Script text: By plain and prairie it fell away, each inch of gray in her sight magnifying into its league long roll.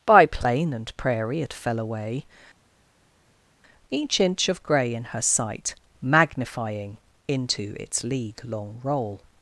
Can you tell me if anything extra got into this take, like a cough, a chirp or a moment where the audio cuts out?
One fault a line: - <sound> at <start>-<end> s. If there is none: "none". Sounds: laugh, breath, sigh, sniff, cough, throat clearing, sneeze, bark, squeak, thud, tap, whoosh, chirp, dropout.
none